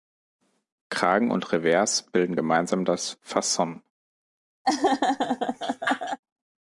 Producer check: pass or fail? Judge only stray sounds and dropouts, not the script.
fail